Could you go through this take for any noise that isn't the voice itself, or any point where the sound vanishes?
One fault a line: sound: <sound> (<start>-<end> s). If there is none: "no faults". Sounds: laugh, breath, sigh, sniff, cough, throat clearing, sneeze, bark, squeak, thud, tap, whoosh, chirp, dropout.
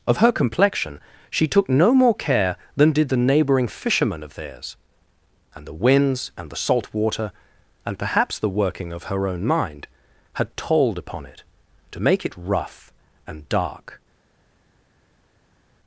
no faults